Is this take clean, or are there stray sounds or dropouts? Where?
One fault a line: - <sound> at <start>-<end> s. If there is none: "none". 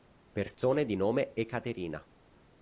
- dropout at 0.5-0.6 s